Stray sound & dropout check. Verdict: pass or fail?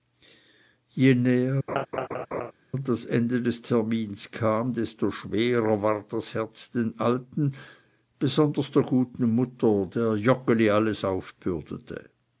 fail